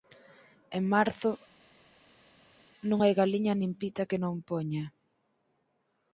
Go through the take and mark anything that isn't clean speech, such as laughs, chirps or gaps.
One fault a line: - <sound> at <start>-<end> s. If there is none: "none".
none